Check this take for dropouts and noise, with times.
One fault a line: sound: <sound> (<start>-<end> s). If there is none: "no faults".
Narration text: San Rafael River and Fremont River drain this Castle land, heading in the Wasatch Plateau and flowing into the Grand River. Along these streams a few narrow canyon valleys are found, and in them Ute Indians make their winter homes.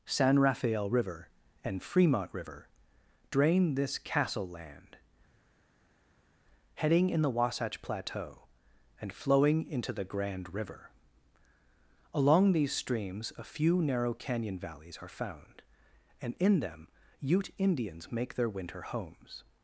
no faults